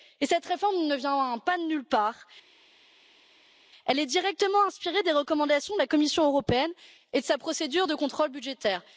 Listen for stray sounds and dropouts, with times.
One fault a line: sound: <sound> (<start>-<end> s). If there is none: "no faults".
no faults